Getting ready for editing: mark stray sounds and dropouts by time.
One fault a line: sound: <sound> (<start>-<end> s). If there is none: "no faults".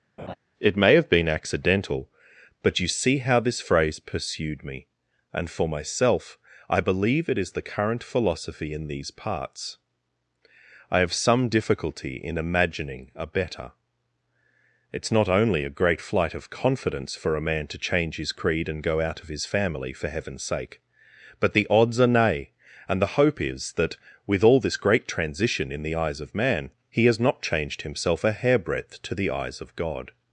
sound: laugh (0.2-0.4 s)